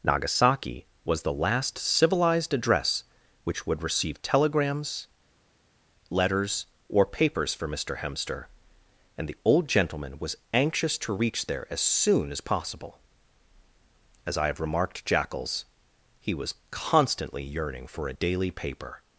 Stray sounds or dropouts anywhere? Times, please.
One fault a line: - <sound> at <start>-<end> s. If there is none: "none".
none